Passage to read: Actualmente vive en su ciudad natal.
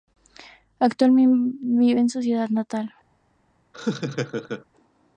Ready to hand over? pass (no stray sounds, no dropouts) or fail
fail